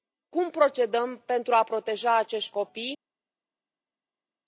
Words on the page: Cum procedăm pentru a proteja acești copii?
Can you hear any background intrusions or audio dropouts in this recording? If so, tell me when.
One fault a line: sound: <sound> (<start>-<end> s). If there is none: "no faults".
no faults